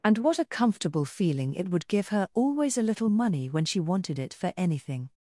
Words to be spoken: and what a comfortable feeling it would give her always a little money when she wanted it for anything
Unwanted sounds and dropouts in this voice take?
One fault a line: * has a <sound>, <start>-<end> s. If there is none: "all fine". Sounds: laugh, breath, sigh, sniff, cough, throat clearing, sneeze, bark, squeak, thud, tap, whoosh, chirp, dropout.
all fine